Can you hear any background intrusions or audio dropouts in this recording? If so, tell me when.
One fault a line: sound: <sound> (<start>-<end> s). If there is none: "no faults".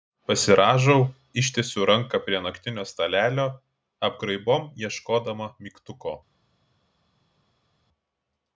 no faults